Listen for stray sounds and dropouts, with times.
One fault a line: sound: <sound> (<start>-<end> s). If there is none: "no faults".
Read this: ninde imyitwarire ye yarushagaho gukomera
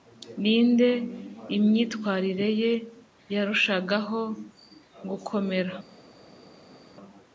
no faults